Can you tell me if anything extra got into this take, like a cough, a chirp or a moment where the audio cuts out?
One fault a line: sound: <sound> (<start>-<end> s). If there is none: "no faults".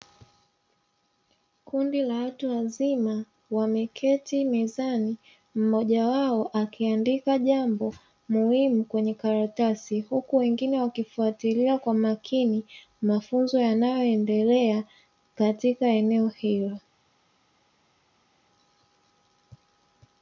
no faults